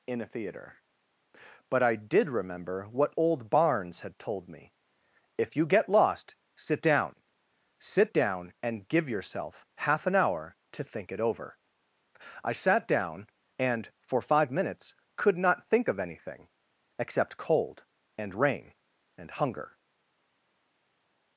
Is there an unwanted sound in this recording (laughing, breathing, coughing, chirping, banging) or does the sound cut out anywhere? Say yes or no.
no